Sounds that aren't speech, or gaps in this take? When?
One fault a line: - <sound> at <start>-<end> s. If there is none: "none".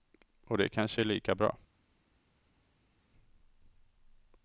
none